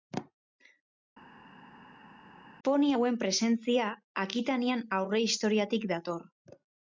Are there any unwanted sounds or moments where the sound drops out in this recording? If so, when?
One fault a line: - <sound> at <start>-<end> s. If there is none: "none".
none